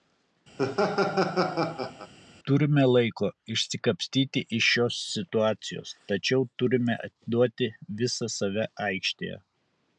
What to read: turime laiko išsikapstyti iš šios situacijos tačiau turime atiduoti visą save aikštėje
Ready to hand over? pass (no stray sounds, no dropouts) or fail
fail